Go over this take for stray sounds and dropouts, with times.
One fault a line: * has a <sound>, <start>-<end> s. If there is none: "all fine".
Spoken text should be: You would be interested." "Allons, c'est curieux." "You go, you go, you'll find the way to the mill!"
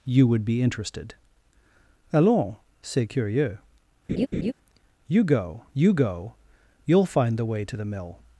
* has a laugh, 4.1-4.5 s